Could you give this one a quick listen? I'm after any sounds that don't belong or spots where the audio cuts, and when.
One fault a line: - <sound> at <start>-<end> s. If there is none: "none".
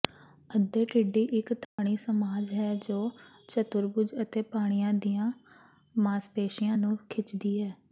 - dropout at 1.6-1.8 s